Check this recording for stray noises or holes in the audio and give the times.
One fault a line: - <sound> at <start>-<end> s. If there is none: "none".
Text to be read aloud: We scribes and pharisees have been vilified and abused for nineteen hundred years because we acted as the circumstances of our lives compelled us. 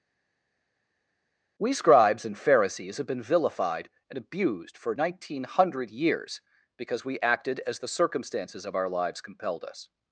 none